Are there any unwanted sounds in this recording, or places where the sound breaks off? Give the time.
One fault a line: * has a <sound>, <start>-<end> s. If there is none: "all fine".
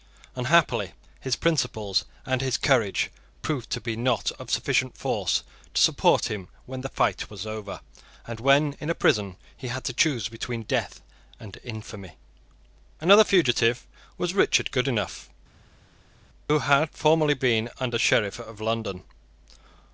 all fine